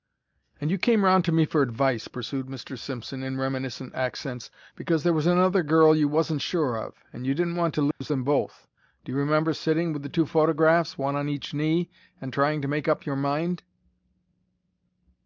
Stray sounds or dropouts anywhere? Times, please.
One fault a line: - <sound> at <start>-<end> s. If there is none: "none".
- dropout at 7.9-8.0 s